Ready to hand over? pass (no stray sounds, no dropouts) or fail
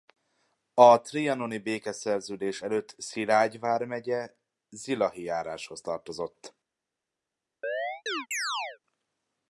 fail